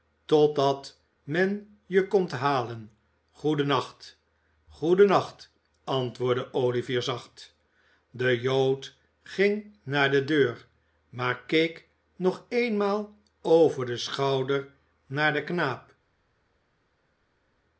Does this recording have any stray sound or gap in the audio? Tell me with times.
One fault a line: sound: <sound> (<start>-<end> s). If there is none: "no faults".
no faults